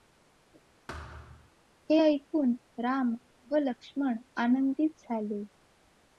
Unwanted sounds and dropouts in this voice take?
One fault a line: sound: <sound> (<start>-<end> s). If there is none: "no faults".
sound: thud (0.9-1.5 s)